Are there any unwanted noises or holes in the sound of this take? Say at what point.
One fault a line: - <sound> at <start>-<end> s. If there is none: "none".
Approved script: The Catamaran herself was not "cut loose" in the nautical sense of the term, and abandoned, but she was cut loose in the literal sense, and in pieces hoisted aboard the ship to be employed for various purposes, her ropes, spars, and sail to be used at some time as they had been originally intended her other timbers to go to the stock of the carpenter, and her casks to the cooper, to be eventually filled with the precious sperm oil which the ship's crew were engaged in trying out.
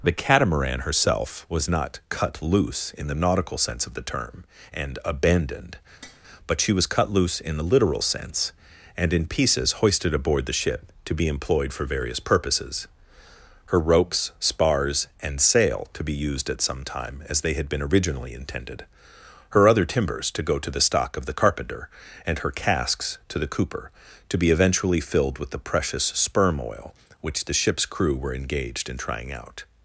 - tap at 6.0-6.2 s